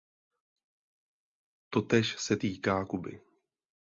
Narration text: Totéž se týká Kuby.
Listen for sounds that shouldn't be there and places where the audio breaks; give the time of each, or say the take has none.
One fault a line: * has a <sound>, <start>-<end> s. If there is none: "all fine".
all fine